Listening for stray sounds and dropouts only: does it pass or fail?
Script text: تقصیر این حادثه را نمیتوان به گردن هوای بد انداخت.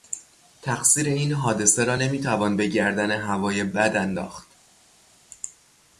pass